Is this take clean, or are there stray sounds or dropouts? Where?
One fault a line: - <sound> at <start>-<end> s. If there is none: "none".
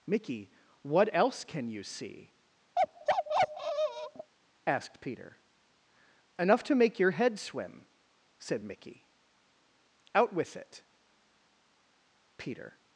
- bark at 2.8-4.3 s